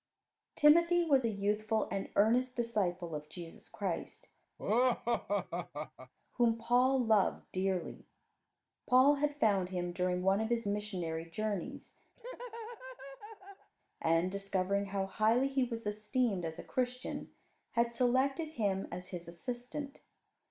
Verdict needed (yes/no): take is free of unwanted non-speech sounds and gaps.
no